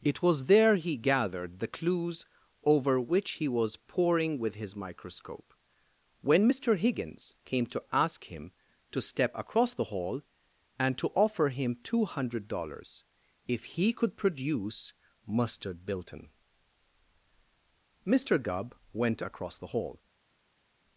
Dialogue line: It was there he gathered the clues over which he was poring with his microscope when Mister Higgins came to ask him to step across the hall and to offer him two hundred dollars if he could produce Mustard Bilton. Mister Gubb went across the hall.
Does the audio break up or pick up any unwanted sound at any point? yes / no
no